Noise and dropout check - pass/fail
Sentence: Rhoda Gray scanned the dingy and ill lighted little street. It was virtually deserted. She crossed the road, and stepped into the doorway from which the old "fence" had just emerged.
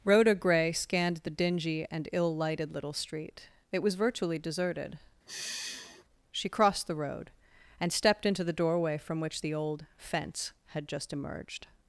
fail